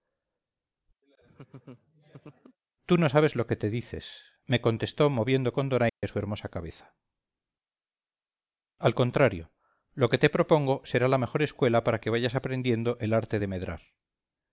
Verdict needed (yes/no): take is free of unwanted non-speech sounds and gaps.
no